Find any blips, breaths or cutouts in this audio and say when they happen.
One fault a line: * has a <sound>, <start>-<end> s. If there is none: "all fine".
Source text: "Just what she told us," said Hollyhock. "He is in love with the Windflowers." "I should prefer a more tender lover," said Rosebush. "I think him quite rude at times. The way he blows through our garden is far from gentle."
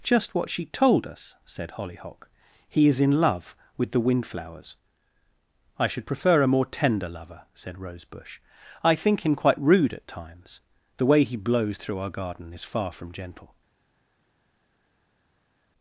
all fine